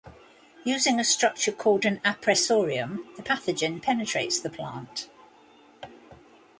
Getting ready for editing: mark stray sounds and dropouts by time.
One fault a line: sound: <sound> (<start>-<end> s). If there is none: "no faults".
no faults